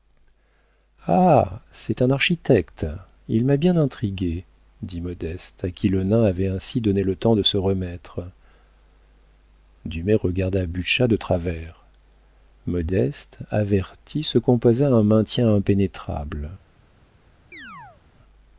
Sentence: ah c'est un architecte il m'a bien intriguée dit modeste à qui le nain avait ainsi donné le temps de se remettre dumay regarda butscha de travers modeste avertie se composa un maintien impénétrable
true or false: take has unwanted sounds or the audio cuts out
true